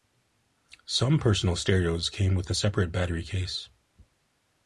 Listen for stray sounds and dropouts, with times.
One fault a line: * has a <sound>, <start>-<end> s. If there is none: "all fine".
all fine